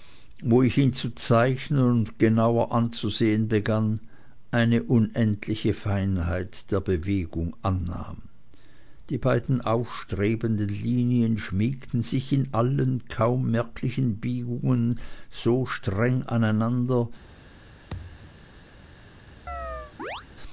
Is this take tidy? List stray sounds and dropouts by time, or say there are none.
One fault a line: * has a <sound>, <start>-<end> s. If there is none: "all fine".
* has a thud, 17.9-18.5 s
* has a chirp, 19.5-20.3 s